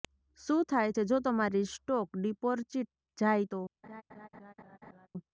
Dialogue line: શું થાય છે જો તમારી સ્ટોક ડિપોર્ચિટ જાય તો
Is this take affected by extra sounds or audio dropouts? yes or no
yes